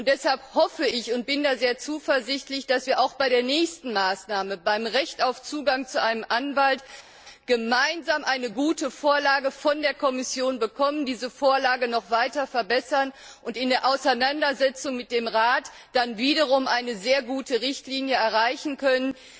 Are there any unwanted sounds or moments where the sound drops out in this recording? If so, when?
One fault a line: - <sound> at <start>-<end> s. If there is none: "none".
none